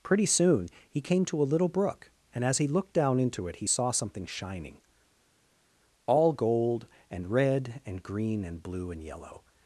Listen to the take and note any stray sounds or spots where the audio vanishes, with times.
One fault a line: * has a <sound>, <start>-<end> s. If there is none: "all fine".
all fine